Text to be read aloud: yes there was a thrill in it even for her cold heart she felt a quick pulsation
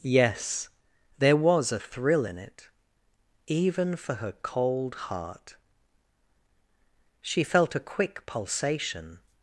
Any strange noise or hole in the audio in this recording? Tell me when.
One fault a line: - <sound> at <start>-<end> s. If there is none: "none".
none